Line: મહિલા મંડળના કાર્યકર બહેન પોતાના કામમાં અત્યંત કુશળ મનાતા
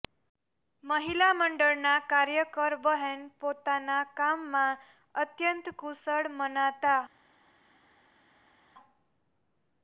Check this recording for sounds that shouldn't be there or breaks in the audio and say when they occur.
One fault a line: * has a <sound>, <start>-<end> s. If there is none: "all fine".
all fine